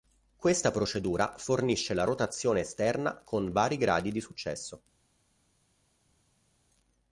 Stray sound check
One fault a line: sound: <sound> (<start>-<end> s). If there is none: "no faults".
no faults